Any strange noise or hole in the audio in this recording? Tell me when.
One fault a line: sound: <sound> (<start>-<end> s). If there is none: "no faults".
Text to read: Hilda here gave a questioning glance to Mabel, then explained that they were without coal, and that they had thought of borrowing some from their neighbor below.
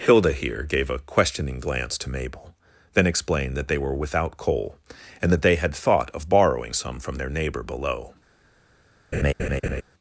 sound: laugh (9.1-9.8 s)